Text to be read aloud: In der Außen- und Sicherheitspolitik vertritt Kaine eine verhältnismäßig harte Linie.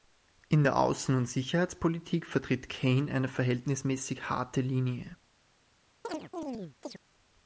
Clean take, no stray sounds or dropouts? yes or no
no